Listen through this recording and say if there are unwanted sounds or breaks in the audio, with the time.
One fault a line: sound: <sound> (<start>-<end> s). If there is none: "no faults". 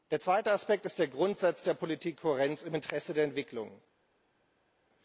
no faults